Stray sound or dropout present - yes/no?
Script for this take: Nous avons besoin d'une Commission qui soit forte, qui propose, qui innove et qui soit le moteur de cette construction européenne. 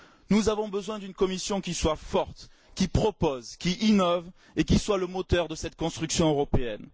no